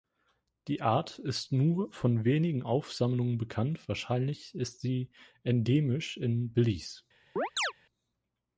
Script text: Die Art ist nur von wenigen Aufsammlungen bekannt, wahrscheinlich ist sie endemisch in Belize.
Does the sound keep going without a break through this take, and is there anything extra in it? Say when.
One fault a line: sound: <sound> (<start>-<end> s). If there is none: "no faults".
sound: chirp (7.4-7.7 s)